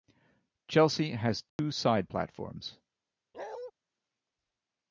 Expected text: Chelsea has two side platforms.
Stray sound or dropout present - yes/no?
yes